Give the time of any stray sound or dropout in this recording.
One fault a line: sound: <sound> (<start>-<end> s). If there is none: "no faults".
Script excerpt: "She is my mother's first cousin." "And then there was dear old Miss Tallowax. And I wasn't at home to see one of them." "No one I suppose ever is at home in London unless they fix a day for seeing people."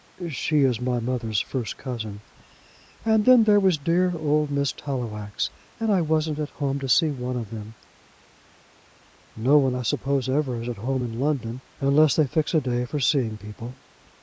no faults